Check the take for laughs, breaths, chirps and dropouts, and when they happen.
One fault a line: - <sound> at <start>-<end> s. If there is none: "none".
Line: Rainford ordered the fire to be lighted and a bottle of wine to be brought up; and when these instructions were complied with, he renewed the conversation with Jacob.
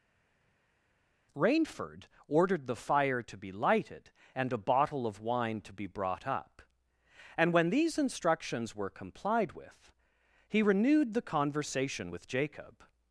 none